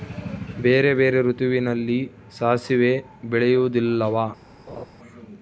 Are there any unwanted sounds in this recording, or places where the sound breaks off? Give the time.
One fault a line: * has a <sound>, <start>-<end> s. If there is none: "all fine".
* has a laugh, 4.7-4.9 s